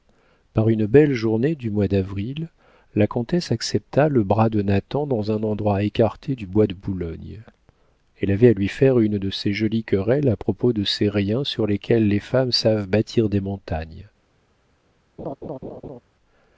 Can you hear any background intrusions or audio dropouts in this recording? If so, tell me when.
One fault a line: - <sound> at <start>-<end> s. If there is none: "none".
- laugh at 15.2-16.0 s